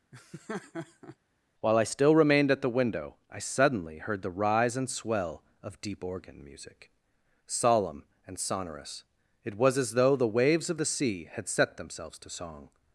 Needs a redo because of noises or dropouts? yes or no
yes